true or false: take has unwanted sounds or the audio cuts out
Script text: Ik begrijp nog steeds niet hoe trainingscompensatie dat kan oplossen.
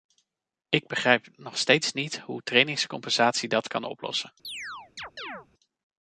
true